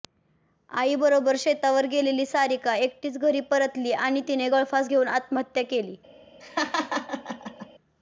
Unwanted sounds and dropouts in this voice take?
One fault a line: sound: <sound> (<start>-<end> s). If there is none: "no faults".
sound: laugh (6.4-7.7 s)